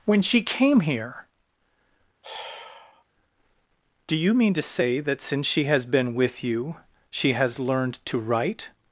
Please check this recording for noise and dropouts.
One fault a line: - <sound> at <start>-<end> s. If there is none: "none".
- sigh at 2.2-3.0 s